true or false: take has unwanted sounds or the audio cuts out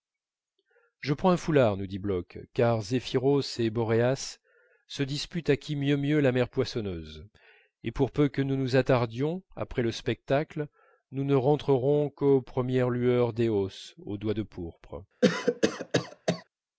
true